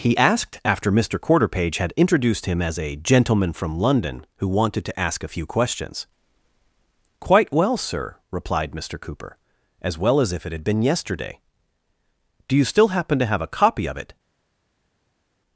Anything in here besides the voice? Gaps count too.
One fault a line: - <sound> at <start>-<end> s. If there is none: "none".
none